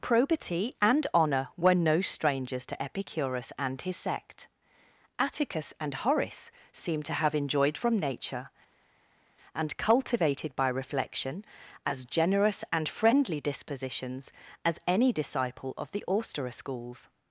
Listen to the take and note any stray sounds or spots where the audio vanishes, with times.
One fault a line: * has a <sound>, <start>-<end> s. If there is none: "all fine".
all fine